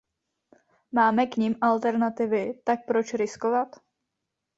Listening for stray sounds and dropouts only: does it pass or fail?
pass